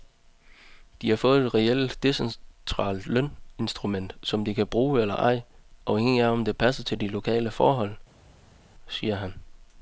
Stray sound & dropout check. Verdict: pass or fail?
pass